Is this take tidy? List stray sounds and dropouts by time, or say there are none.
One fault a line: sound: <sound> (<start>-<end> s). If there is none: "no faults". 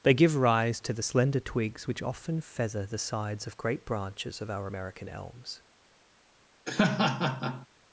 sound: laugh (6.7-7.7 s)